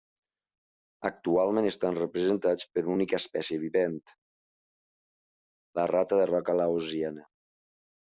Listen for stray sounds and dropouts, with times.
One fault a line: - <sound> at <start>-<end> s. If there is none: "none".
none